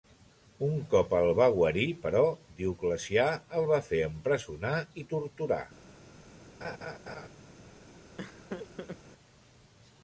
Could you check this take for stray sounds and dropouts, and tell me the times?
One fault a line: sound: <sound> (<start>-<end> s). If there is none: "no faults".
sound: laugh (6.6-7.3 s)
sound: laugh (8.2-9.0 s)